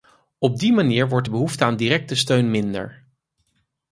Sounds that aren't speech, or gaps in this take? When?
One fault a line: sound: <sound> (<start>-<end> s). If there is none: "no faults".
no faults